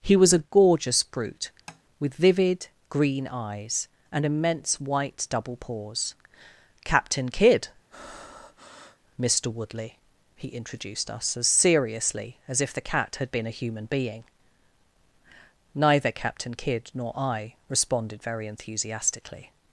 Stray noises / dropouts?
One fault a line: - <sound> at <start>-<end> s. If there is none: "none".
- tap at 1.7-1.8 s
- breath at 7.9-9.0 s